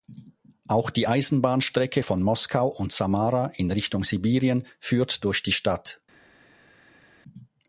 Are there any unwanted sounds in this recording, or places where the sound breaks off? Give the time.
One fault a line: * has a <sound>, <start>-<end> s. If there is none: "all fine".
all fine